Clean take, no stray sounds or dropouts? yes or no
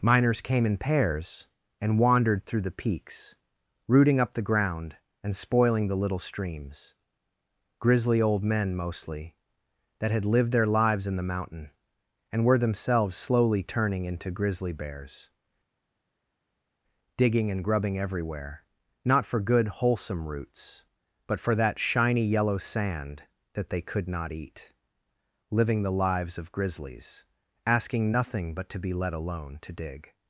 yes